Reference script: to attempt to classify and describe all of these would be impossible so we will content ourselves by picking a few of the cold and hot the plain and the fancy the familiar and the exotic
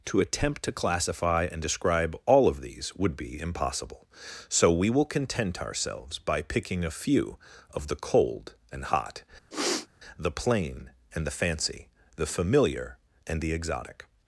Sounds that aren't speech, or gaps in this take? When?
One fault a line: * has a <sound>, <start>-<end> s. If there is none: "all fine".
* has a sniff, 9.5-9.9 s